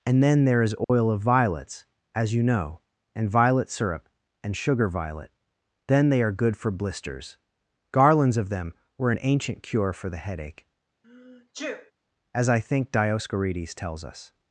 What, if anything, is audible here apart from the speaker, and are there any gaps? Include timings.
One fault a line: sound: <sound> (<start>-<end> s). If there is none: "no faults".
sound: dropout (0.8-0.9 s)
sound: sneeze (11.0-11.9 s)